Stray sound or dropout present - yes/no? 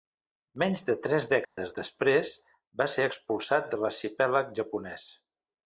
yes